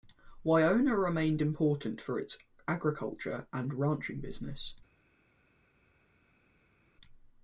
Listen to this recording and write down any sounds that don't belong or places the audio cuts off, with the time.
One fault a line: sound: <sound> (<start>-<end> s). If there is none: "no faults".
no faults